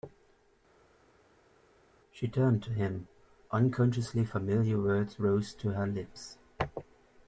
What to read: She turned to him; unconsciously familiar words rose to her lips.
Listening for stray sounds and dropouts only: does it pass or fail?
pass